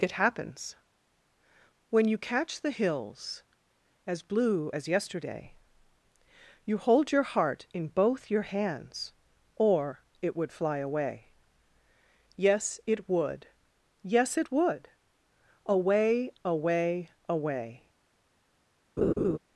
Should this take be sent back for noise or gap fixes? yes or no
yes